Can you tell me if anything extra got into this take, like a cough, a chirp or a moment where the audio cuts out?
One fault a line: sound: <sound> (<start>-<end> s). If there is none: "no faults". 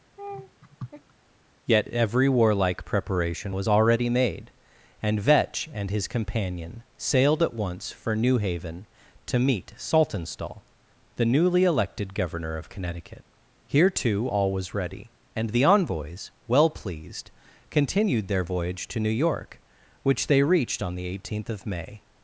sound: laugh (0.2-1.1 s)